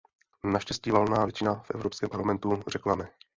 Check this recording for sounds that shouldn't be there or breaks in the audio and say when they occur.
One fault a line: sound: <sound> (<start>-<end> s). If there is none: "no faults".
no faults